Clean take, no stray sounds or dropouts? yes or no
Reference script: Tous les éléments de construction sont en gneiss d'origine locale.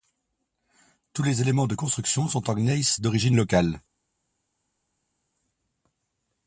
yes